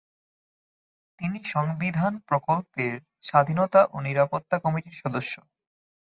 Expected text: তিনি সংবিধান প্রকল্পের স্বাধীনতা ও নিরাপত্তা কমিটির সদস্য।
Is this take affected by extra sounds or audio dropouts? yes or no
no